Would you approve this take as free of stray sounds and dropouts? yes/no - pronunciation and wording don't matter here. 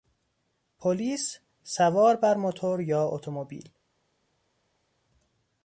yes